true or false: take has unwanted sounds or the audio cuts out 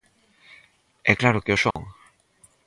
true